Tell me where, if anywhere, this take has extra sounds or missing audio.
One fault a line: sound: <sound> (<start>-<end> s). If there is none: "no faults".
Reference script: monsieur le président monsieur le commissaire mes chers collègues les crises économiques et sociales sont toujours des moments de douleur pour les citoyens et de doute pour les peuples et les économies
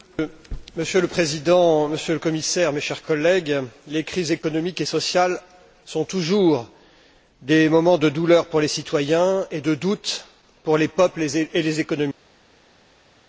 no faults